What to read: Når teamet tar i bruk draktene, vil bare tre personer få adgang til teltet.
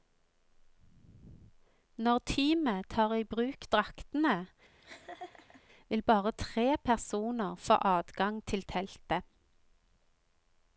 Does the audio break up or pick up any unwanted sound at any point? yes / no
yes